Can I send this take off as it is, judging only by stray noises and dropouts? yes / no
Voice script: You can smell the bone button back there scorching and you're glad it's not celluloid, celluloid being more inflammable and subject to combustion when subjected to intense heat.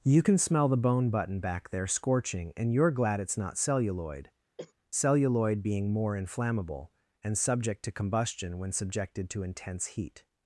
no